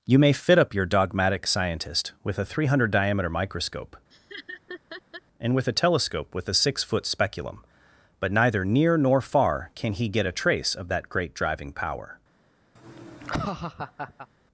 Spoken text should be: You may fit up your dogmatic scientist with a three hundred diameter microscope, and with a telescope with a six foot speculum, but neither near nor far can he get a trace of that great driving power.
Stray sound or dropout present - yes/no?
yes